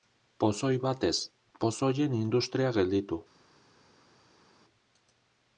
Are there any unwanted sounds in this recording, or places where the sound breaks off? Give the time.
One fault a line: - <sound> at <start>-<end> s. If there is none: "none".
none